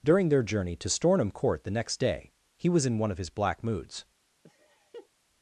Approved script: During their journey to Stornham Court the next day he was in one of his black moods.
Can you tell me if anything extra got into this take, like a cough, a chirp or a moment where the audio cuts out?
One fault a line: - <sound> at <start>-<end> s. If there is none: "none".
- laugh at 4.4-5.1 s